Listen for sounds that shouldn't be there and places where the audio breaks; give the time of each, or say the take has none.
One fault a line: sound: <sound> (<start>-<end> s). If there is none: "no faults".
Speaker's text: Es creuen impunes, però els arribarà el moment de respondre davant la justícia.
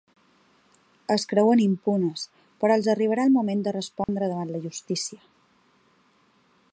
sound: dropout (4.0-4.1 s)